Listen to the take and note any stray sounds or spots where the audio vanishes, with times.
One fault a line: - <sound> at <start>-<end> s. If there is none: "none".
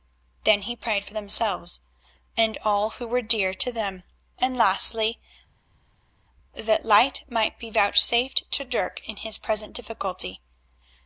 none